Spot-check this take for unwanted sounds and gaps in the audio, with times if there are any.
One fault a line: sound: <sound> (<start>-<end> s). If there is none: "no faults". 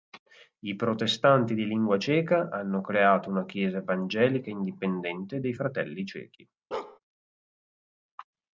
sound: bark (6.7-7.0 s)